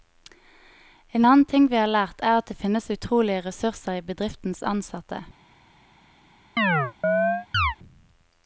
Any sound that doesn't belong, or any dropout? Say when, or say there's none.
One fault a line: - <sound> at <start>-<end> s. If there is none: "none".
- chirp at 6.6-7.8 s